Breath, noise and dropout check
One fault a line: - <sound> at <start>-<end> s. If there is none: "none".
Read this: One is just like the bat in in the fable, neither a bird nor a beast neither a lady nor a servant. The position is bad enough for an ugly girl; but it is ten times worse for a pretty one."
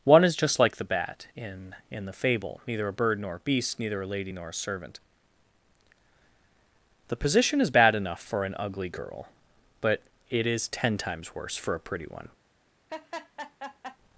- laugh at 12.9-14.0 s